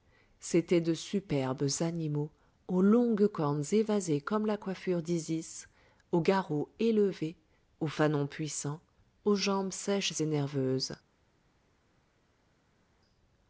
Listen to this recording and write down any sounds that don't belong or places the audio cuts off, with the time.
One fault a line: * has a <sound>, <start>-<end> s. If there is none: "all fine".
all fine